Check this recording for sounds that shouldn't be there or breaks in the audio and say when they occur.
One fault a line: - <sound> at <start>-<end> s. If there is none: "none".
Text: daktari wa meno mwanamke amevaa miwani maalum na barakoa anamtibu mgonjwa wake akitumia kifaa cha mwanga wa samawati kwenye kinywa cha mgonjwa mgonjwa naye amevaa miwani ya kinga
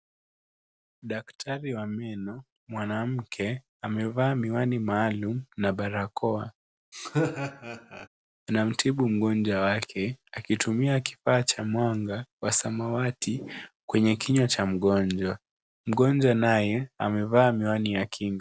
- laugh at 6.9-8.1 s